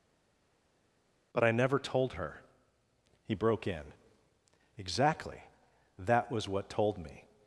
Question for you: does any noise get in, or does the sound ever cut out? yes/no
no